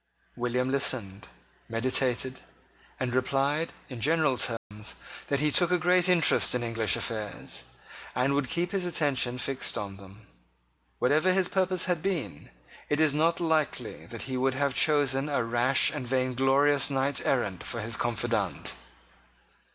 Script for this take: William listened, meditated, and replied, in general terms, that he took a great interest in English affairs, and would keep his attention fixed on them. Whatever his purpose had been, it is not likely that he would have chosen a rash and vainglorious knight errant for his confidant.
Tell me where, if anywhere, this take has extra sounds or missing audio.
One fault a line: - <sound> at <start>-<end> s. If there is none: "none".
- dropout at 4.6-4.7 s